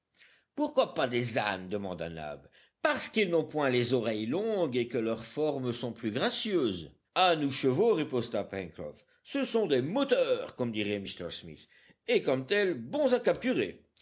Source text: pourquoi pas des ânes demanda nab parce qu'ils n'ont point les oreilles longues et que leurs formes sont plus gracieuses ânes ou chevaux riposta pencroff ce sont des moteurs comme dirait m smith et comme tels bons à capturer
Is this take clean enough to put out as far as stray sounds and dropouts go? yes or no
yes